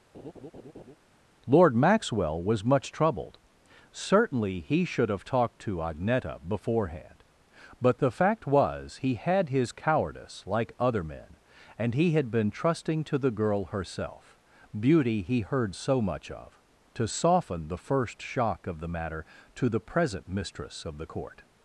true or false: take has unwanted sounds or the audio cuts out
true